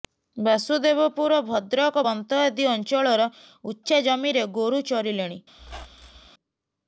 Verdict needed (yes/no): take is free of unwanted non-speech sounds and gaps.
no